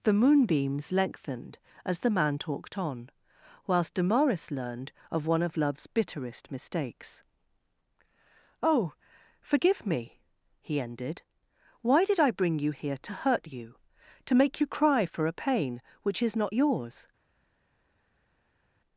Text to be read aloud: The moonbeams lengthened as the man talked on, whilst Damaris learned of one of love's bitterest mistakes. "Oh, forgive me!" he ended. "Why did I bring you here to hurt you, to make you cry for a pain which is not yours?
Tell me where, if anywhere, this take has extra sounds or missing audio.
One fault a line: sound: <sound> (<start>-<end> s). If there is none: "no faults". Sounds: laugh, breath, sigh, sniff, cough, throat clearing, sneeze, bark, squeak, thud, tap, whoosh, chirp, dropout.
no faults